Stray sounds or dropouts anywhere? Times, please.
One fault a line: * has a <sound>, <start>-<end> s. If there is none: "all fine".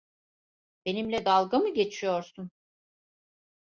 all fine